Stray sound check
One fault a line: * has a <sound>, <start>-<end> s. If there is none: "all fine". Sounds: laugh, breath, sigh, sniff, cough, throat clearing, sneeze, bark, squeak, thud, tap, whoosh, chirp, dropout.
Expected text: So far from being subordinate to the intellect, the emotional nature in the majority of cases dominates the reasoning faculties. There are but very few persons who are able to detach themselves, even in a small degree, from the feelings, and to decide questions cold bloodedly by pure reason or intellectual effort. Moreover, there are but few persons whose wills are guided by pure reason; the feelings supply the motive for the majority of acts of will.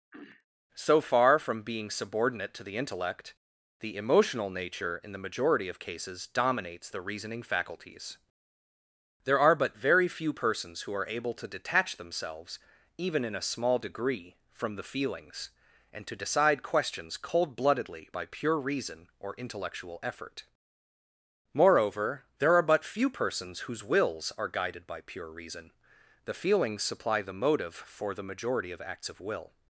* has a throat clearing, 0.1-0.5 s